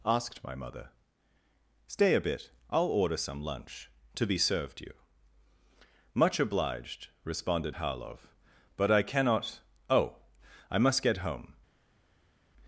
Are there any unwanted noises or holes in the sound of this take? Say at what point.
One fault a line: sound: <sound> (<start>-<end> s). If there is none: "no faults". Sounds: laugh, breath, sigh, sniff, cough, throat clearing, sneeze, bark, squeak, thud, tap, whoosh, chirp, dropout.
no faults